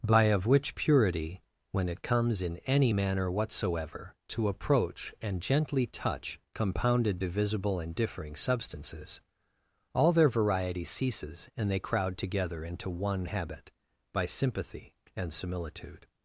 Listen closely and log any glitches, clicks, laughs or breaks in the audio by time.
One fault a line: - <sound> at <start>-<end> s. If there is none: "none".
none